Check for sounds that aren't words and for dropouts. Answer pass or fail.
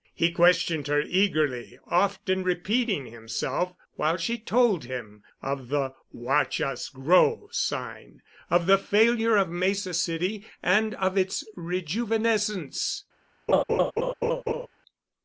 fail